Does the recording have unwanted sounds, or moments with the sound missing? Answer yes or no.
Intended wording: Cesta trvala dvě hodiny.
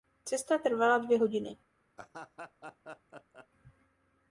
yes